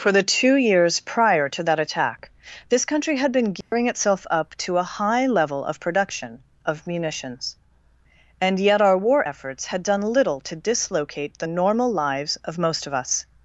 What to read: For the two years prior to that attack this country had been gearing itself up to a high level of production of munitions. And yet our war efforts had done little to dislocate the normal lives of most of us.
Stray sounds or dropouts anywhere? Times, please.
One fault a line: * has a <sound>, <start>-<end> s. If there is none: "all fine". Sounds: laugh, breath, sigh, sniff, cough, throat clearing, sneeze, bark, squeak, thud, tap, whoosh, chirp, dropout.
* has a dropout, 3.6-3.7 s